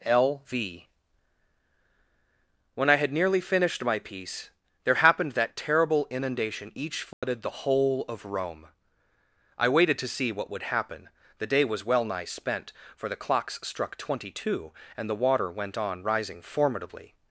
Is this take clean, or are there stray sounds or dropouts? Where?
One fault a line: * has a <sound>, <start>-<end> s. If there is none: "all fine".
* has a dropout, 7.1-7.2 s